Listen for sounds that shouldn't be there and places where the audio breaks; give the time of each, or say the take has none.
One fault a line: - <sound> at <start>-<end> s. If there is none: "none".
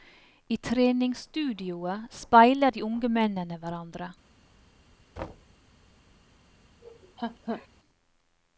- thud at 5.2-5.5 s
- laugh at 6.8-7.7 s